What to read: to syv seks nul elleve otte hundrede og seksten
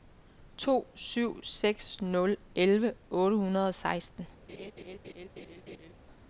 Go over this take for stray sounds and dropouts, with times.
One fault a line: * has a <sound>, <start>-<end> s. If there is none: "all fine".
* has a laugh, 4.5-5.9 s